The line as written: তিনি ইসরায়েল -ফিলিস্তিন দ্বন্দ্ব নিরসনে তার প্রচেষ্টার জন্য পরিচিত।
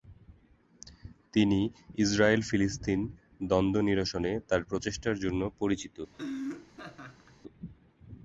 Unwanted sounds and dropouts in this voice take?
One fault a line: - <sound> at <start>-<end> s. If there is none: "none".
- laugh at 6.1-7.4 s